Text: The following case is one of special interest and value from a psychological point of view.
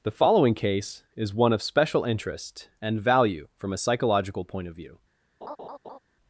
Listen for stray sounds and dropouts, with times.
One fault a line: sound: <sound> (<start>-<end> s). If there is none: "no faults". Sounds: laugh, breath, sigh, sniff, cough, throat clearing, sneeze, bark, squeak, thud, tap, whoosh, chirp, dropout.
sound: laugh (5.4-6.0 s)